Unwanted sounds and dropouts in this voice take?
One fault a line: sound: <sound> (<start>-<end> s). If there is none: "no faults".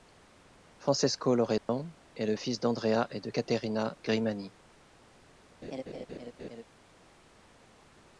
sound: dropout (1.6-1.7 s)
sound: laugh (5.6-6.6 s)